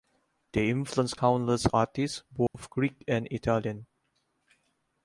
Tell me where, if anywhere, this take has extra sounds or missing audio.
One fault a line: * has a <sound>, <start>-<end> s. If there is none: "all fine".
* has a dropout, 2.5-2.5 s